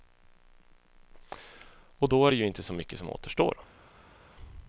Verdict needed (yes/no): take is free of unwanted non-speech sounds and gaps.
yes